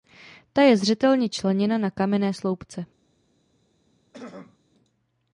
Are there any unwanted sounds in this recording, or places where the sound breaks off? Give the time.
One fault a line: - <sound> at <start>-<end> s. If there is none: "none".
- throat clearing at 4.1-4.6 s